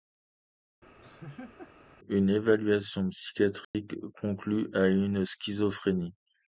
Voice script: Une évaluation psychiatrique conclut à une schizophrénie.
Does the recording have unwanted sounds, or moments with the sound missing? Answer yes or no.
yes